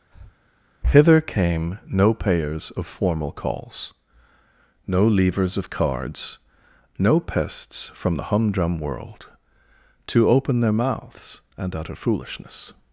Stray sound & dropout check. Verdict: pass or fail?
fail